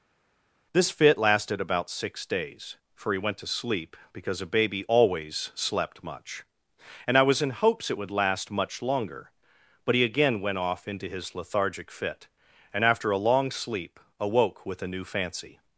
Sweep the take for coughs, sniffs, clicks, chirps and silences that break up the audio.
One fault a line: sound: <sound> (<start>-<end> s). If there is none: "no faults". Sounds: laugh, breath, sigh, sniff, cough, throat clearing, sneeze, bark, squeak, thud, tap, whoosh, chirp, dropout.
no faults